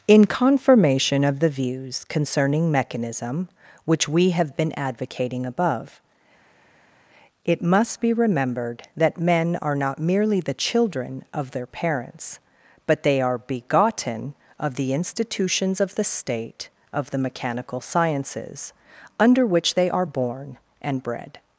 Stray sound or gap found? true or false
false